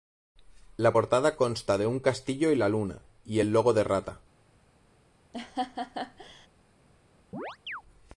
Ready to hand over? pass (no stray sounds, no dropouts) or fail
fail